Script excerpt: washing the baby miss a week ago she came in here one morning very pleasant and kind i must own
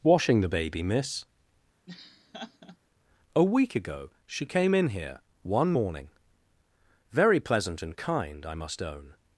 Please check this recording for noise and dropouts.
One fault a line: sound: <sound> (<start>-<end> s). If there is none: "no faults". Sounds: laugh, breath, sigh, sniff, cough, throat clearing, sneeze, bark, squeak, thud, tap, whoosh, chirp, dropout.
sound: laugh (1.9-2.8 s)